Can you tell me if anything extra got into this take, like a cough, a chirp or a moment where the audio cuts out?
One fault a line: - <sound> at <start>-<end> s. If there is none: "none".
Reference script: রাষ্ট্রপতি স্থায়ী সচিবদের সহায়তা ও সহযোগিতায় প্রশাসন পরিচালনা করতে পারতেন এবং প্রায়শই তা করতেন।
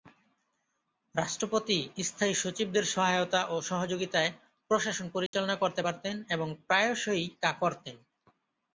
- dropout at 5.3-5.3 s